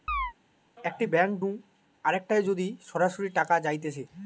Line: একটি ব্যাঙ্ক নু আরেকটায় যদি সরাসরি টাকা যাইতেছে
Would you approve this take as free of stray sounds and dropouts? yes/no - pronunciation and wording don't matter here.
no